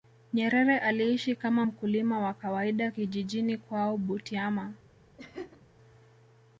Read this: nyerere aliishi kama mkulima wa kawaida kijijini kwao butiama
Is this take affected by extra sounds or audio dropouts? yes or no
yes